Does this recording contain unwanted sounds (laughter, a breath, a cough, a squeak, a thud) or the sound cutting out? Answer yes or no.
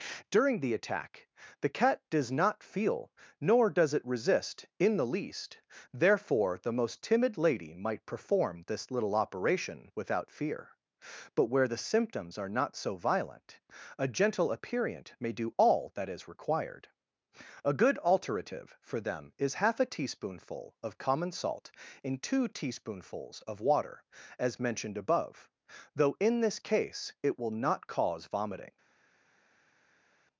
no